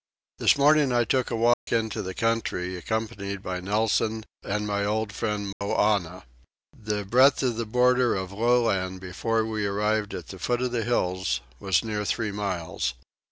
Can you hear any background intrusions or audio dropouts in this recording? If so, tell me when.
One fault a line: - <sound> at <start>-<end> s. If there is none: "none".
- dropout at 1.5-1.7 s
- dropout at 5.5-5.6 s